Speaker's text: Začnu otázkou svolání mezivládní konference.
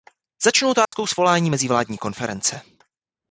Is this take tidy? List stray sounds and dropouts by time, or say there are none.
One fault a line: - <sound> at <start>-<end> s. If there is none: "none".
- dropout at 0.9-0.9 s